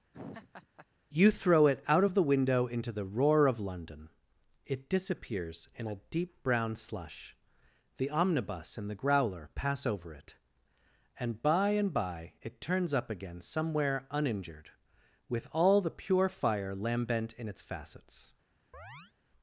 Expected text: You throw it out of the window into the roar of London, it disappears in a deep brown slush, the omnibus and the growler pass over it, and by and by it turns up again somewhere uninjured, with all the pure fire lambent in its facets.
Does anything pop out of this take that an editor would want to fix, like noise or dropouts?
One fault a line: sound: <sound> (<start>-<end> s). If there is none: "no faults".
sound: laugh (0.1-0.9 s)
sound: chirp (18.7-19.1 s)